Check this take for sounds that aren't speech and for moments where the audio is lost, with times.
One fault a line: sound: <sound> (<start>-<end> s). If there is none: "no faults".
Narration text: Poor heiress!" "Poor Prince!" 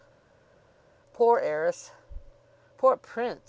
no faults